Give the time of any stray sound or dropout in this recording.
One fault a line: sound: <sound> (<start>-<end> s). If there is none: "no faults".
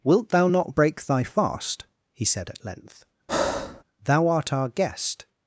sound: breath (3.3-3.8 s)